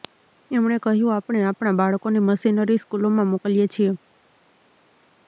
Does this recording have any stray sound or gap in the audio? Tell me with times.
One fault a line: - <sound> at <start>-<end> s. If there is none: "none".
none